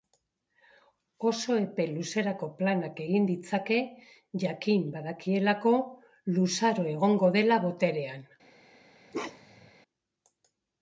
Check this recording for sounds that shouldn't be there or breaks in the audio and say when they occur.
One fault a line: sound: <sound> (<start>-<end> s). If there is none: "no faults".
sound: bark (9.1-9.7 s)